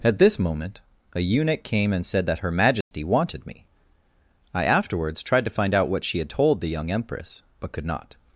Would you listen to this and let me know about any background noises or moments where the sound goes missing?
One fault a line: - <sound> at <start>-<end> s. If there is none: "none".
- dropout at 2.8-2.9 s